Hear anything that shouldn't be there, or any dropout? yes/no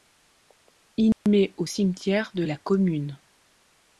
yes